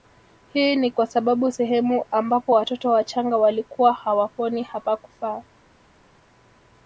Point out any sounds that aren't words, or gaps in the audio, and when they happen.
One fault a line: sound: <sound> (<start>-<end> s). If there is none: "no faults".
no faults